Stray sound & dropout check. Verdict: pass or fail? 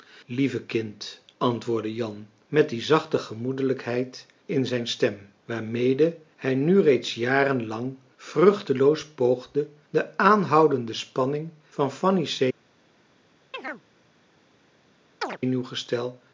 fail